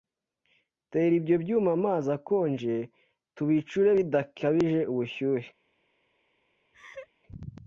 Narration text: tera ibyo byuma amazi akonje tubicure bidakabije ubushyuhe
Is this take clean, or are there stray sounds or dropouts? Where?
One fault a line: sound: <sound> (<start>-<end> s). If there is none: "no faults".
sound: laugh (6.7-7.1 s)